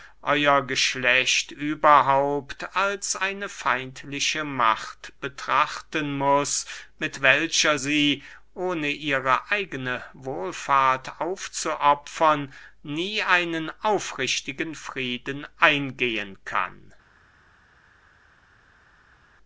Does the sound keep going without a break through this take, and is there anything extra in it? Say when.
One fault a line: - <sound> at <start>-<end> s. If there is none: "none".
none